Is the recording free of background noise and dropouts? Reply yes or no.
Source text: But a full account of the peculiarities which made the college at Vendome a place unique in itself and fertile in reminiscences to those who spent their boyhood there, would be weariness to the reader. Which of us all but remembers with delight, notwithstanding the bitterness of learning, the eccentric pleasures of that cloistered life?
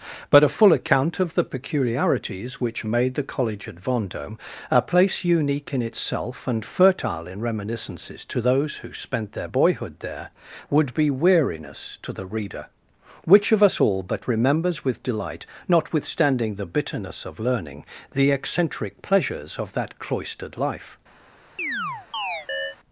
no